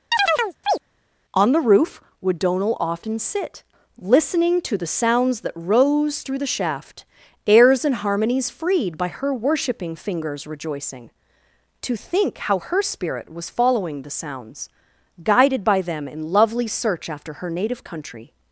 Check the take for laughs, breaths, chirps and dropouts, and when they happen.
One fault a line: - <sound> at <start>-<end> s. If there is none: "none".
- chirp at 0.1-0.8 s